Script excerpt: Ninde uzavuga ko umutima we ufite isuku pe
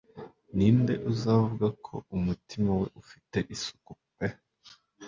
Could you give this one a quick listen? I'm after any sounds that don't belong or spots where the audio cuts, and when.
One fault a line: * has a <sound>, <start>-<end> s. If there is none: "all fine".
all fine